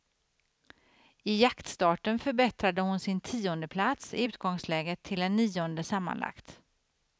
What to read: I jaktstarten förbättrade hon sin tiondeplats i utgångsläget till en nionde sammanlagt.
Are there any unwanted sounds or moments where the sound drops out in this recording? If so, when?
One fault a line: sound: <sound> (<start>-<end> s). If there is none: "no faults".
no faults